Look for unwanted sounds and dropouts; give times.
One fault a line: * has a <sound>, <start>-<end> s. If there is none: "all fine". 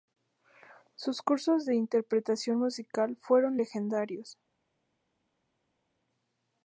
all fine